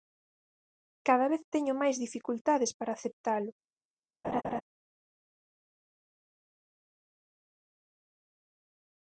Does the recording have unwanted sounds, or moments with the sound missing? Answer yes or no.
yes